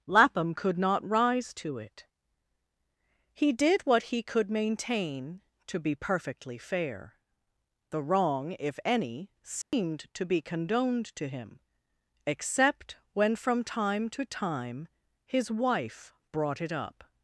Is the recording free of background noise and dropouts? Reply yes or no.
no